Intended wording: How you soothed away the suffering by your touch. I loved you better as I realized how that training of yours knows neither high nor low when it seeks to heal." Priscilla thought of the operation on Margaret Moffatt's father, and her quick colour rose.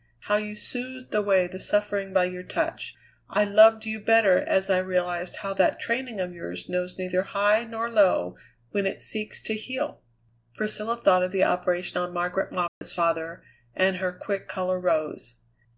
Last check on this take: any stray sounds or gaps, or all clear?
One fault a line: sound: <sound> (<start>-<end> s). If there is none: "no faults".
sound: dropout (12.7-12.8 s)